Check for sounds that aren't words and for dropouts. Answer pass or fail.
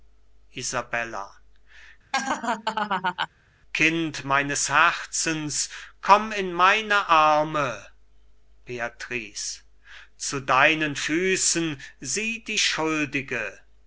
fail